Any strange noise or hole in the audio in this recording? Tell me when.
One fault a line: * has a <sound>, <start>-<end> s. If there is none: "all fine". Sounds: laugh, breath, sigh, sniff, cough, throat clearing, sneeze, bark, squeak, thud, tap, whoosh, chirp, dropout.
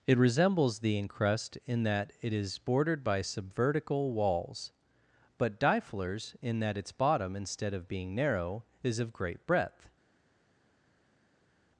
all fine